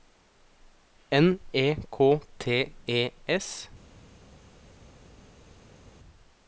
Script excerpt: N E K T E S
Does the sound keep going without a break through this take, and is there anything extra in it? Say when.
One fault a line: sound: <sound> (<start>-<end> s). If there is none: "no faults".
no faults